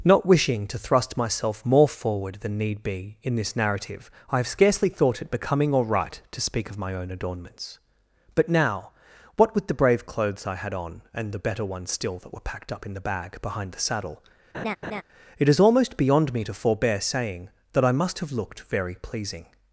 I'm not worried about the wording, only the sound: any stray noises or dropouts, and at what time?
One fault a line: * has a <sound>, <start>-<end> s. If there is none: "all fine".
* has a laugh, 14.5-15.0 s